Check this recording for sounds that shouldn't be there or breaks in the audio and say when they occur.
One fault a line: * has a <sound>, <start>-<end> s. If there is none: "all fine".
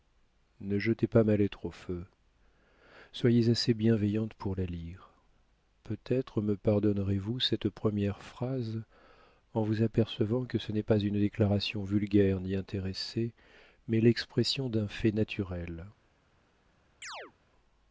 * has a chirp, 17.0-17.3 s